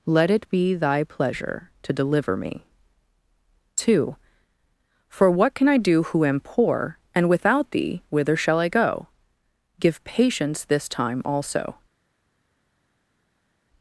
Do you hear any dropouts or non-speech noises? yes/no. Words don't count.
no